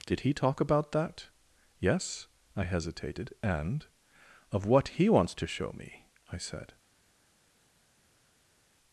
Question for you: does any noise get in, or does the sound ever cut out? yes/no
no